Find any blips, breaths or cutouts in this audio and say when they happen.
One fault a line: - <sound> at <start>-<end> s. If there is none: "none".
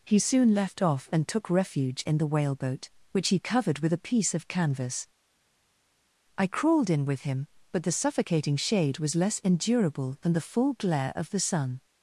none